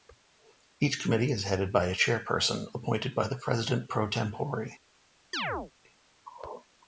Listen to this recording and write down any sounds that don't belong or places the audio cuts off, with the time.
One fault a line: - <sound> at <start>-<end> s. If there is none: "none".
- chirp at 5.3-5.7 s